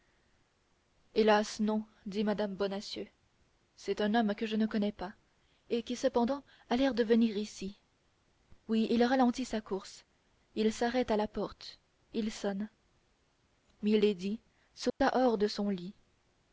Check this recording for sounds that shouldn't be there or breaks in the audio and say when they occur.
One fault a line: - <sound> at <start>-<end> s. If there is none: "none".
- dropout at 14.9-15.0 s